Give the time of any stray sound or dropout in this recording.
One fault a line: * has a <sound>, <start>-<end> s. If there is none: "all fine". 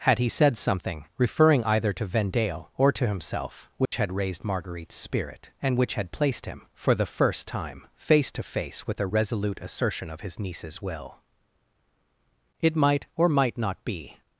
* has a dropout, 3.9-3.9 s